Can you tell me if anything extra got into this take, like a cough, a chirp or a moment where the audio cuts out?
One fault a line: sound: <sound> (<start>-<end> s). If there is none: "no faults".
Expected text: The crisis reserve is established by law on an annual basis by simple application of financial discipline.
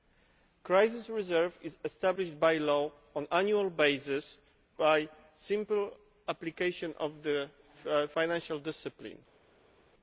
no faults